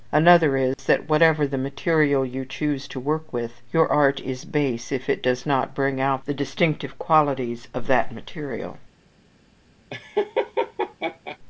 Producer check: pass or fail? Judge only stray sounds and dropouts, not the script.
fail